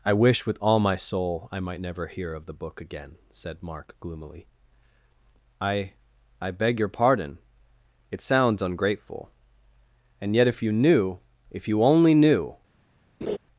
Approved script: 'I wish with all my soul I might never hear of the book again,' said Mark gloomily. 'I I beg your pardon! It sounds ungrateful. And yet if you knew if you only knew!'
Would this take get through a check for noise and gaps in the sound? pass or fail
fail